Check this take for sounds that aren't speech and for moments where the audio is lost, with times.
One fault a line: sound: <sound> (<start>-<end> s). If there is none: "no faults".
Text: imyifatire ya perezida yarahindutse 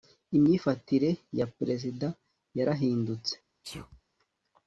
sound: sneeze (3.6-4.0 s)